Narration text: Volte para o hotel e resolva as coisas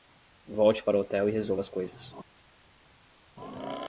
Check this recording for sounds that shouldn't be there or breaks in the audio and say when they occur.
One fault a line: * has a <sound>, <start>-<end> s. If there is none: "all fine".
all fine